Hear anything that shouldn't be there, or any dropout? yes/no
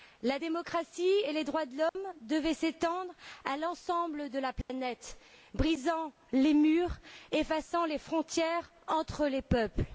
yes